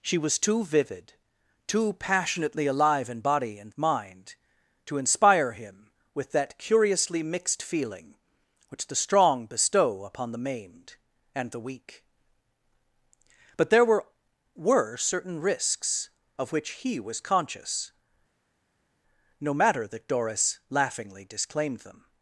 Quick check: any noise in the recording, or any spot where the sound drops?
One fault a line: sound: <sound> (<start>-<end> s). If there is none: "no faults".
no faults